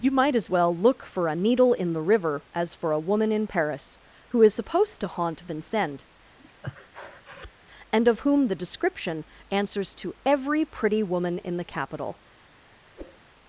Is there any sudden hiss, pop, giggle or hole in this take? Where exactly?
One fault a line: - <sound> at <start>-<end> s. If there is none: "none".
- breath at 6.4-7.5 s
- whoosh at 13.0-13.2 s